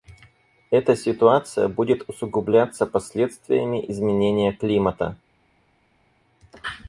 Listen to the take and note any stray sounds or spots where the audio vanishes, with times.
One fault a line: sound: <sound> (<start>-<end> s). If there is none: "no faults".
no faults